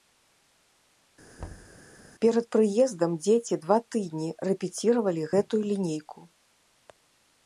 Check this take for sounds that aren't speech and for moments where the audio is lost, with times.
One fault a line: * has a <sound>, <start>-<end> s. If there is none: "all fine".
* has a thud, 1.4-1.8 s